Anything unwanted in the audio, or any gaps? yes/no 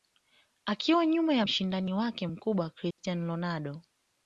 yes